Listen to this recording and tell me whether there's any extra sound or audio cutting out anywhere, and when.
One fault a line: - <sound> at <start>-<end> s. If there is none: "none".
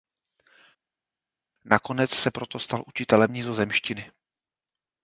none